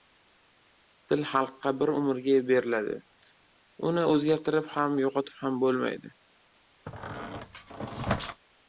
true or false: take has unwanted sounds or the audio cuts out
true